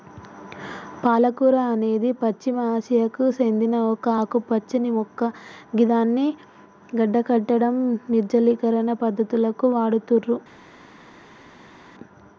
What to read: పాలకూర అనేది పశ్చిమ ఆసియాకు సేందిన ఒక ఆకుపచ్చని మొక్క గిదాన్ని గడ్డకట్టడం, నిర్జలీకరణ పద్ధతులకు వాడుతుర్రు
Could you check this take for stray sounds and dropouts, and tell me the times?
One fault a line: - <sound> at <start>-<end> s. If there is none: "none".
none